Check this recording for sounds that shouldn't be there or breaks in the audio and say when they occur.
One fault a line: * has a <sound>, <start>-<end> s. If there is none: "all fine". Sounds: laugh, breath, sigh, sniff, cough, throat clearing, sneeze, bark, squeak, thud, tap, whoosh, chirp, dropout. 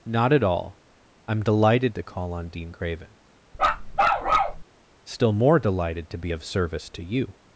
* has a bark, 3.5-4.6 s